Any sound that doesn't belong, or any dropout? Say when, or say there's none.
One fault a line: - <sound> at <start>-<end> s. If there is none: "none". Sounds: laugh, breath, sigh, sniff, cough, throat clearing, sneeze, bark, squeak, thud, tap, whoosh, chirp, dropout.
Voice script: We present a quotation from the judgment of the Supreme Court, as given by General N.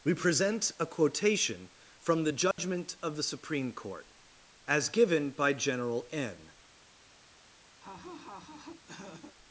- dropout at 2.5-2.6 s
- laugh at 7.8-9.4 s